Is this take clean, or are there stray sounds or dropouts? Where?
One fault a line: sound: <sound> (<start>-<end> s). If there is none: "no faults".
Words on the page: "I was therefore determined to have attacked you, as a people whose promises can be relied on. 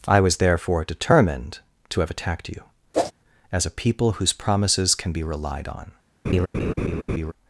sound: whoosh (2.9-3.1 s)
sound: laugh (6.2-7.3 s)